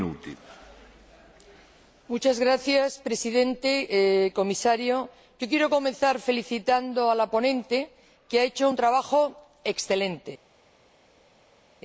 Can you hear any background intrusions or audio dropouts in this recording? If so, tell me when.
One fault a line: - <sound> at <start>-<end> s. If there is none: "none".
none